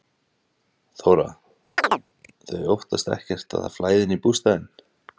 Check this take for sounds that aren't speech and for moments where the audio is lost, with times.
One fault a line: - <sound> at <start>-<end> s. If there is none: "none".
- chirp at 1.8-2.0 s